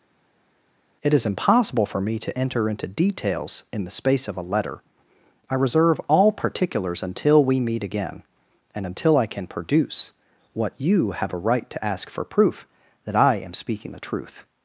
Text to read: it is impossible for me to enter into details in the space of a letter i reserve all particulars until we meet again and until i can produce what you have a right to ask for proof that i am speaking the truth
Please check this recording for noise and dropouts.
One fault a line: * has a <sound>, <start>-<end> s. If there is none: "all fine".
all fine